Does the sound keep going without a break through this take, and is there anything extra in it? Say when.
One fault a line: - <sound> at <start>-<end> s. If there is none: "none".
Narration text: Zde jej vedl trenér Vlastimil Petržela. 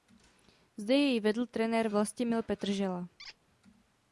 - squeak at 3.2-3.4 s